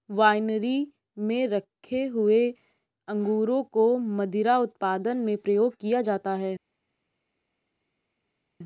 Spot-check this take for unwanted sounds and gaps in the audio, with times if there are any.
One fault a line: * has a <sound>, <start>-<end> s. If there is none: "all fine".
all fine